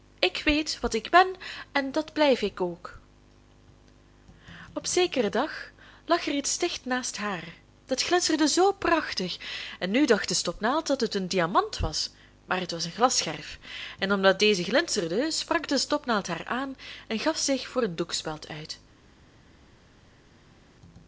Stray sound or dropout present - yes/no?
no